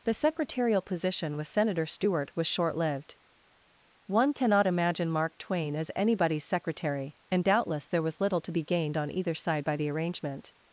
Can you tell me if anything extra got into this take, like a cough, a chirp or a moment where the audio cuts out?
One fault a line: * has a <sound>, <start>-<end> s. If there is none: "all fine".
all fine